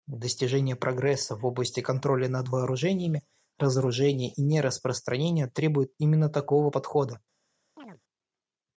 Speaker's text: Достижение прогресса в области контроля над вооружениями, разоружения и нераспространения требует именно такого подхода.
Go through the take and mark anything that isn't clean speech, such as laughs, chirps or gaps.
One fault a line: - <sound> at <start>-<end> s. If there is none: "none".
- chirp at 7.8-8.0 s